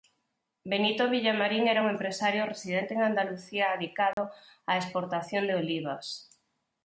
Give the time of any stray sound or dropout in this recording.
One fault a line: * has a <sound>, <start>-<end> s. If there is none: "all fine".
* has a dropout, 4.1-4.2 s